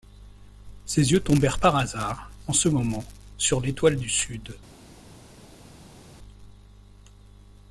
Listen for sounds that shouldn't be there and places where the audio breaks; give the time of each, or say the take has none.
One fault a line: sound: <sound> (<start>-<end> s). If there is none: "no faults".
no faults